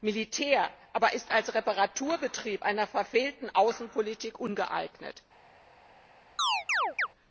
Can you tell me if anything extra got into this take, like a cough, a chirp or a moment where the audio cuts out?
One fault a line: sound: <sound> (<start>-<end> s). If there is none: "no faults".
sound: chirp (6.4-7.1 s)